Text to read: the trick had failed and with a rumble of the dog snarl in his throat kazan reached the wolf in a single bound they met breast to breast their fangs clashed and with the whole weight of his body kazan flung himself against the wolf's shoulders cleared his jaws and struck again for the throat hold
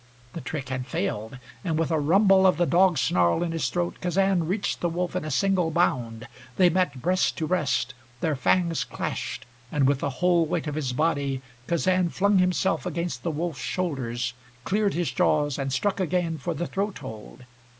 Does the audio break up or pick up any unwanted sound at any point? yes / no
no